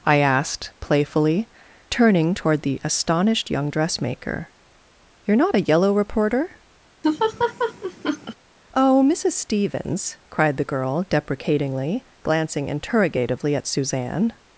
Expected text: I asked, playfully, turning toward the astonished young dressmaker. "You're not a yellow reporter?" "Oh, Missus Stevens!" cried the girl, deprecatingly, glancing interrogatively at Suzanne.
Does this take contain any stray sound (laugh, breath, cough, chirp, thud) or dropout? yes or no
yes